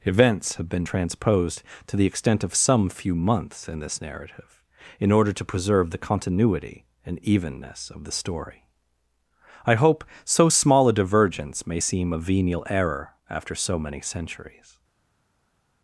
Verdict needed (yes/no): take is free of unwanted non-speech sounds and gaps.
yes